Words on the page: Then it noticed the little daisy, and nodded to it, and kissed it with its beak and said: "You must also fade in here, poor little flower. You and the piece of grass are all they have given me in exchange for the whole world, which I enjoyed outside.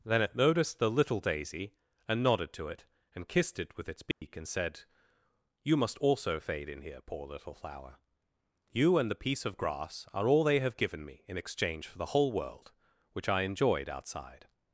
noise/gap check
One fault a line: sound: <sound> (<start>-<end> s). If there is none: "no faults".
sound: dropout (4.1-4.2 s)